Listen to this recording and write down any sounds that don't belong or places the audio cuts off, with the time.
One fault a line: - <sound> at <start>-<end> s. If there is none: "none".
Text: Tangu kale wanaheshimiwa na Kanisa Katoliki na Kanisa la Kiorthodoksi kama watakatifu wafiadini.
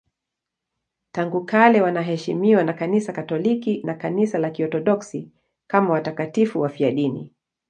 none